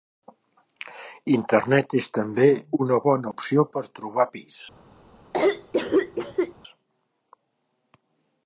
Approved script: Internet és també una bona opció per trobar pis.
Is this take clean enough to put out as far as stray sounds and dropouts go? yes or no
no